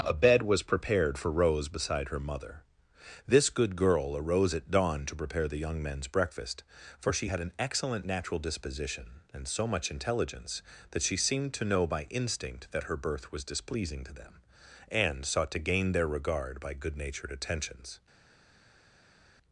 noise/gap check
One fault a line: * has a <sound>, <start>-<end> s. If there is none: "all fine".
all fine